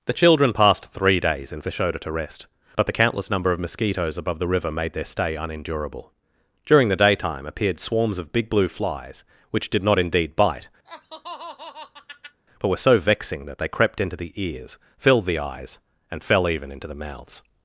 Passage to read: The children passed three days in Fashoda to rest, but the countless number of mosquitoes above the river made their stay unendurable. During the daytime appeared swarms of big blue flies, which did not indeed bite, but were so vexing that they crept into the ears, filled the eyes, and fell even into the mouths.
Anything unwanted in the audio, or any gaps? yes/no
yes